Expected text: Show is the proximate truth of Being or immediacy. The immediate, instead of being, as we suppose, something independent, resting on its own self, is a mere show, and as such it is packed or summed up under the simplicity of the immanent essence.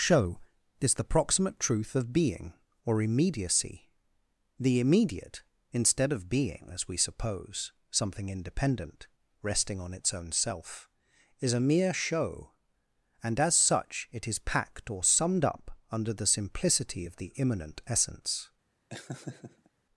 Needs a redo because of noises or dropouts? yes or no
yes